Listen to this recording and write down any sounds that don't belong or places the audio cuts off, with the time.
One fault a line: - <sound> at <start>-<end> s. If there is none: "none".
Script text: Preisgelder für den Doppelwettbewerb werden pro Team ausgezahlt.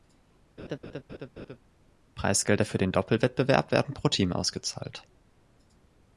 - laugh at 0.6-1.6 s